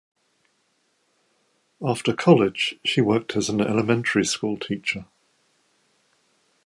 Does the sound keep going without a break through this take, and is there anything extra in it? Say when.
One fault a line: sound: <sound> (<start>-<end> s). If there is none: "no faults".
no faults